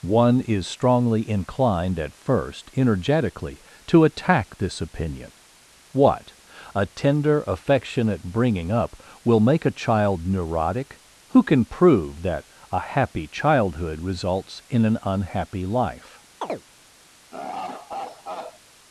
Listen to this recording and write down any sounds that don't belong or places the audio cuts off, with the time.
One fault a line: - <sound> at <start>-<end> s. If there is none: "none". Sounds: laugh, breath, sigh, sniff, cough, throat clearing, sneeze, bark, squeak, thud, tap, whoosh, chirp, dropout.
- chirp at 16.4-16.6 s
- laugh at 17.3-18.6 s